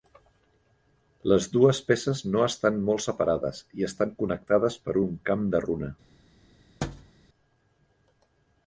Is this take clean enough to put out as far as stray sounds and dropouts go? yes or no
no